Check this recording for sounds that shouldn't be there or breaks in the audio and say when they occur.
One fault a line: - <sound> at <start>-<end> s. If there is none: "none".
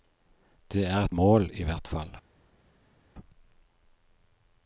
none